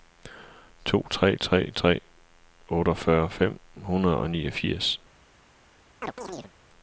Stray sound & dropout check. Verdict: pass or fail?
fail